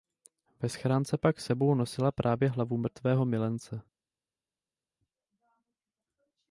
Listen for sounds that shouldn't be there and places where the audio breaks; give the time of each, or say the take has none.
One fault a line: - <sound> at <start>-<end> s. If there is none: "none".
none